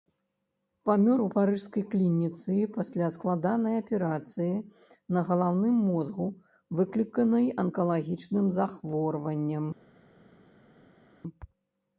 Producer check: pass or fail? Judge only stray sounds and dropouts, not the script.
pass